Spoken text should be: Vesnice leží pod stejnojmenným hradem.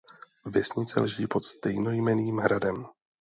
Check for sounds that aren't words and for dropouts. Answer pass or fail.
pass